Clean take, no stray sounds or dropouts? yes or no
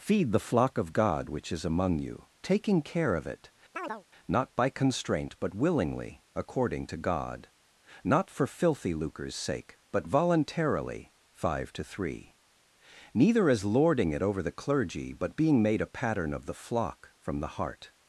no